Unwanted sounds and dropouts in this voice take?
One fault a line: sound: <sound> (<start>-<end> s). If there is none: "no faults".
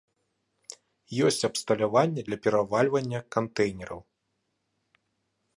no faults